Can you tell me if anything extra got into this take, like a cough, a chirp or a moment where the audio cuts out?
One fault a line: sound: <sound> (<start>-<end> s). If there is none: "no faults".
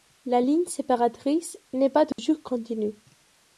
sound: dropout (2.1-2.2 s)